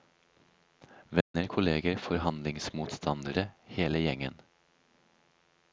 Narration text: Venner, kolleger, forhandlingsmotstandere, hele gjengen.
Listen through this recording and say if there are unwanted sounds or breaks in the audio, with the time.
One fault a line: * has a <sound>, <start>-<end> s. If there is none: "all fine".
* has a dropout, 1.2-1.3 s